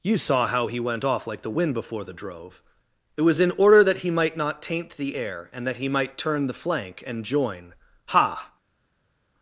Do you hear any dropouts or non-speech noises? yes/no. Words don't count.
no